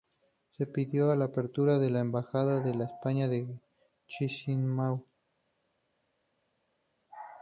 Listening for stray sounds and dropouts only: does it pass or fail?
pass